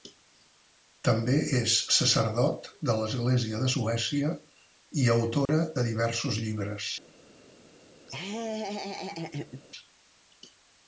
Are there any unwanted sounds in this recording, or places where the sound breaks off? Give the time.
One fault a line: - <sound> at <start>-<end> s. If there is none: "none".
- dropout at 5.5-5.5 s
- laugh at 8.1-9.6 s